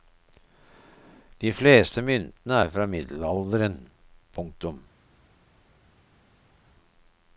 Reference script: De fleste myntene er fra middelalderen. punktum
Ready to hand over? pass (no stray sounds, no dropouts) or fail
pass